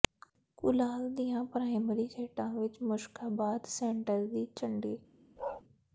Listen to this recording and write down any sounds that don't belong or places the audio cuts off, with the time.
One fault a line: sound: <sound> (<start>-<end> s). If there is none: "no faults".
sound: bark (5.4-5.6 s)